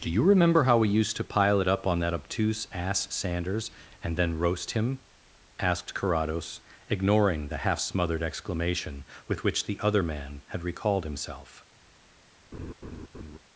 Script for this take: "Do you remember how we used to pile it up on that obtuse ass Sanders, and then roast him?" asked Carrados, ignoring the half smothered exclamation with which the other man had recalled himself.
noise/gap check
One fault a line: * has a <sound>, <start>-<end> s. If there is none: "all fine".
* has a laugh, 12.5-13.4 s